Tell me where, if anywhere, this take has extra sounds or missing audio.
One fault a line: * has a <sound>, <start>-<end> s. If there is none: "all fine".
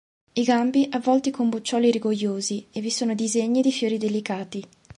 all fine